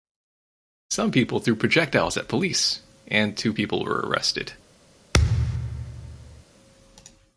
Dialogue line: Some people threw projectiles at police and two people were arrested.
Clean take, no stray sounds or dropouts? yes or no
no